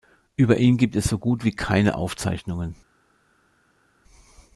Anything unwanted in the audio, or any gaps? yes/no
no